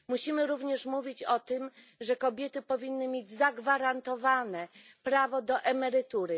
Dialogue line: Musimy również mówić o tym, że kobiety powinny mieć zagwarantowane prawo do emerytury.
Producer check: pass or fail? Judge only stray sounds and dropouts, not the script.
pass